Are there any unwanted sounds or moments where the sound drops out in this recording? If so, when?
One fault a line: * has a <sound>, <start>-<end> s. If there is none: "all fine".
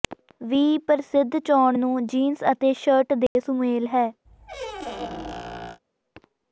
* has a dropout, 3.3-3.4 s
* has a squeak, 4.2-5.8 s